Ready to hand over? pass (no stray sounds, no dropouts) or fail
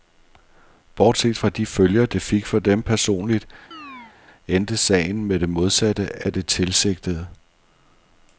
fail